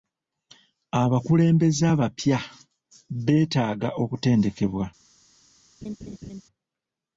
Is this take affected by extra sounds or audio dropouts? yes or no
yes